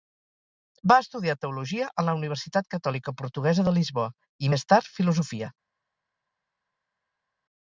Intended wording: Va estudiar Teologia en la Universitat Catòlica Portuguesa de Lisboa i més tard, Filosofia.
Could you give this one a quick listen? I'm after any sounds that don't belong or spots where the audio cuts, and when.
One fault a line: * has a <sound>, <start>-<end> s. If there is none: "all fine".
all fine